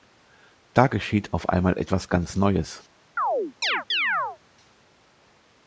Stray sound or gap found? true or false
true